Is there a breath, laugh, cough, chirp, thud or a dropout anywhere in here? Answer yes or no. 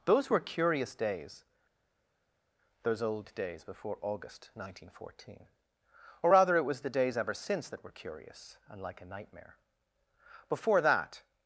no